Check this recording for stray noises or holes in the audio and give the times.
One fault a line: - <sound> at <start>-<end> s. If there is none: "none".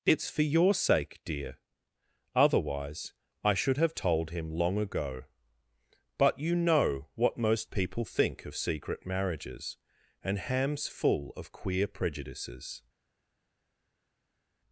none